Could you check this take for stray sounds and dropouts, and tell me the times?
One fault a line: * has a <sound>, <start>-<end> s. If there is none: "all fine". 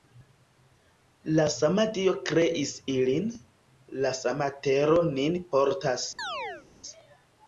* has a chirp, 6.2-6.7 s